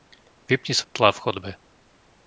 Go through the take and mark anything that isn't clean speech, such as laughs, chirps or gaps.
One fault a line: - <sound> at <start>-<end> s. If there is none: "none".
- dropout at 0.8-1.0 s